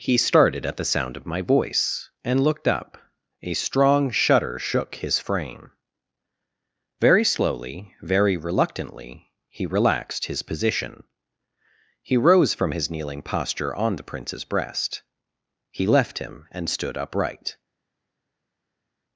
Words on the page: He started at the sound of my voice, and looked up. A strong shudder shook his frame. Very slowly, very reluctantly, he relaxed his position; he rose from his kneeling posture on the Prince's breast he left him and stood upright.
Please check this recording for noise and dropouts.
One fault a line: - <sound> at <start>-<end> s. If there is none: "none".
none